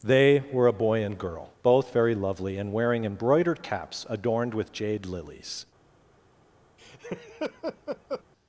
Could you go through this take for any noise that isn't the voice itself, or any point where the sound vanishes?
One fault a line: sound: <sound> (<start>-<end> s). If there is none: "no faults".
sound: laugh (6.8-8.2 s)